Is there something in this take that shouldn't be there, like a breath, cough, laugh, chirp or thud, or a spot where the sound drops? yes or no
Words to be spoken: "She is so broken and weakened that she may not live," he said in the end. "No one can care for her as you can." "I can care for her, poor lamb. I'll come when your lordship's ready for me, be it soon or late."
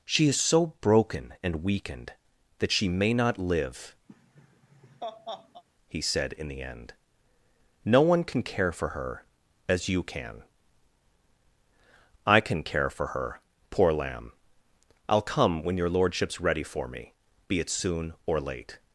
yes